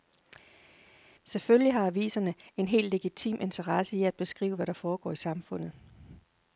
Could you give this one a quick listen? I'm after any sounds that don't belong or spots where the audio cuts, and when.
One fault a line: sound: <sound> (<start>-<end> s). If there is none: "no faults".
no faults